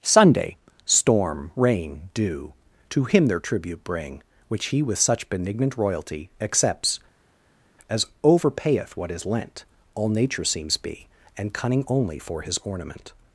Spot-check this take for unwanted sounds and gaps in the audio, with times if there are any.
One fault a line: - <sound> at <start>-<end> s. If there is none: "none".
none